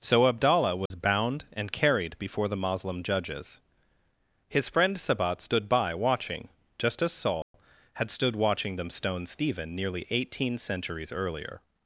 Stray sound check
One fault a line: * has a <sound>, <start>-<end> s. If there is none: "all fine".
* has a dropout, 0.9-0.9 s
* has a dropout, 7.4-7.5 s